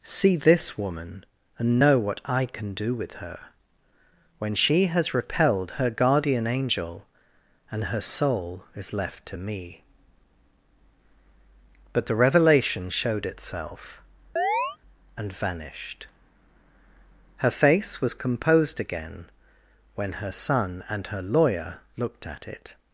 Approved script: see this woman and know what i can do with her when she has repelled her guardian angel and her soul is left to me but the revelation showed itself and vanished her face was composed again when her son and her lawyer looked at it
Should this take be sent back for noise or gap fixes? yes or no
yes